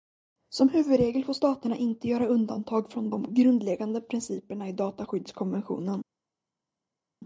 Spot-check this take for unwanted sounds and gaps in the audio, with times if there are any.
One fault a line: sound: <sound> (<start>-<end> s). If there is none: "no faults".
no faults